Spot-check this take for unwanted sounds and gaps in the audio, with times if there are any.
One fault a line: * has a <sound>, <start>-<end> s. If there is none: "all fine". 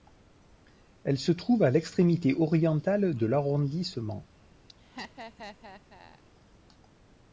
* has a laugh, 4.7-6.2 s